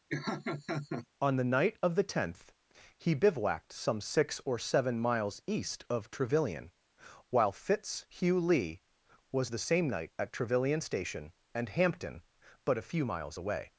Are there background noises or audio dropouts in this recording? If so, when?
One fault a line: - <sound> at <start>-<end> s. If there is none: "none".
- laugh at 0.1-1.1 s